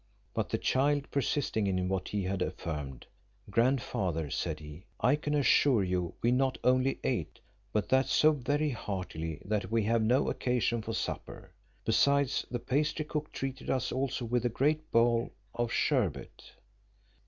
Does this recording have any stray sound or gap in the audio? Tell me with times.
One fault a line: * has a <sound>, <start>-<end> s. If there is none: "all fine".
all fine